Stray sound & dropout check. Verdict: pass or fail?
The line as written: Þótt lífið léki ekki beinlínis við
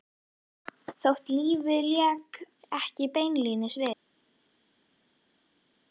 pass